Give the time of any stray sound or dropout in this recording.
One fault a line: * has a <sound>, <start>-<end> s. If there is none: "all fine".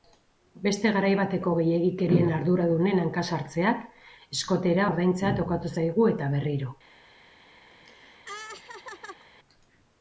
* has a laugh, 7.7-9.3 s